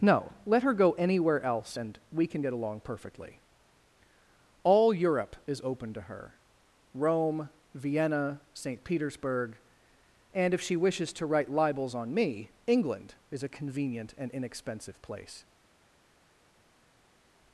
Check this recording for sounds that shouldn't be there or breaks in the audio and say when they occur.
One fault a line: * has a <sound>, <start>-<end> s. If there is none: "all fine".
all fine